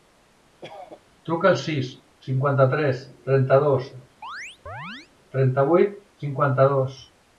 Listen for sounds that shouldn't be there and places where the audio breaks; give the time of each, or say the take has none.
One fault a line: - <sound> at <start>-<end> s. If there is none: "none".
- cough at 0.6-1.0 s
- chirp at 4.2-5.1 s